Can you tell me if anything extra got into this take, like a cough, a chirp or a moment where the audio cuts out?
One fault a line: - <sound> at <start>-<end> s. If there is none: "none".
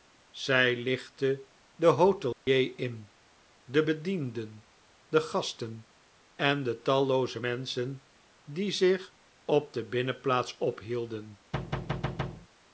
- dropout at 2.3-2.5 s
- thud at 11.5-12.5 s